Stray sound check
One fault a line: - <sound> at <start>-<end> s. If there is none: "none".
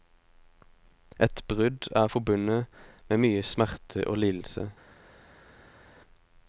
none